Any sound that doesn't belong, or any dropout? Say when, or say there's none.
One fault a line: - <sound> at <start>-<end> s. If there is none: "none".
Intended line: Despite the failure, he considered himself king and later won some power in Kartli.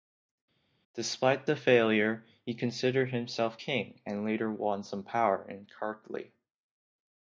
none